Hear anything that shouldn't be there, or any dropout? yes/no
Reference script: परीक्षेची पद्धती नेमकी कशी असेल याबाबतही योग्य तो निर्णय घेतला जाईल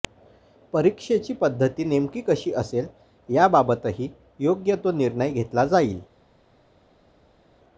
no